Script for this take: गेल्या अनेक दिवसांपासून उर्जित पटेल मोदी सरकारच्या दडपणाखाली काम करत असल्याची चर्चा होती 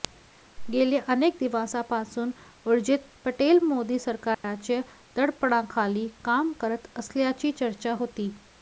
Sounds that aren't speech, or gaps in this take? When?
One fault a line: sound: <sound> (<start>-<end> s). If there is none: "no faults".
sound: dropout (4.3-4.4 s)